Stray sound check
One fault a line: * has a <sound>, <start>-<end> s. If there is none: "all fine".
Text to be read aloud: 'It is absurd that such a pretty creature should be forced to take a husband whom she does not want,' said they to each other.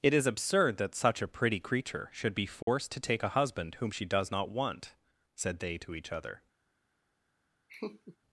* has a dropout, 2.6-2.7 s
* has a laugh, 7.7-8.2 s